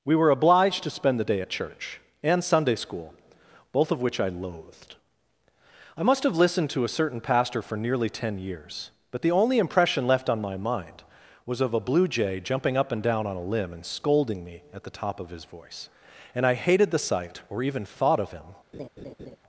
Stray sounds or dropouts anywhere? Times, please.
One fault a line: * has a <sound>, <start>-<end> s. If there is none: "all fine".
* has a laugh, 18.7-19.4 s